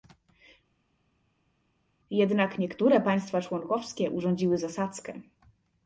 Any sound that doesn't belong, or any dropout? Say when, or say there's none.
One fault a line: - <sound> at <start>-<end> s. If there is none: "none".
none